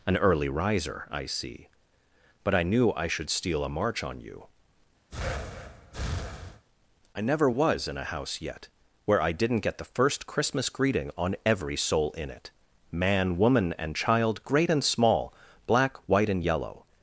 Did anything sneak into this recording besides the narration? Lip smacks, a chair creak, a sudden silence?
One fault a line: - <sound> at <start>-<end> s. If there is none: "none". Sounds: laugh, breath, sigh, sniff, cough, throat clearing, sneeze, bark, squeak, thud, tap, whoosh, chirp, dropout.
- breath at 5.1-6.7 s